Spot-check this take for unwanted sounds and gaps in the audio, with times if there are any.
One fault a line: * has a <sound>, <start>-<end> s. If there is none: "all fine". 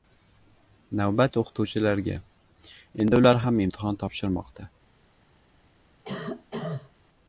* has a cough, 6.0-6.9 s